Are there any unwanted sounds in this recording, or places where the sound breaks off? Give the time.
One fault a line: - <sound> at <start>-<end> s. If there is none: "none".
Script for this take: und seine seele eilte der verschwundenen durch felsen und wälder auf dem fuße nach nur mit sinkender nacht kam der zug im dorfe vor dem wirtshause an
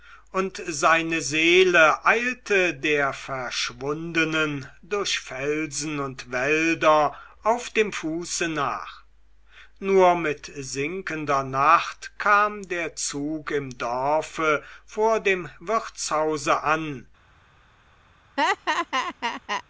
- laugh at 18.4-19.6 s